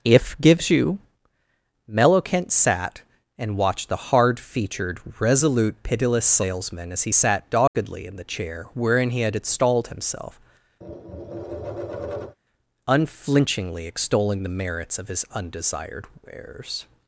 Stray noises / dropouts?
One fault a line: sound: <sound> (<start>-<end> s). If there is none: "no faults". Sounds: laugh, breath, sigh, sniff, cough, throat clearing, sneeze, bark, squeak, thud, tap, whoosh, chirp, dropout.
sound: dropout (7.7-7.7 s)
sound: tap (10.8-12.4 s)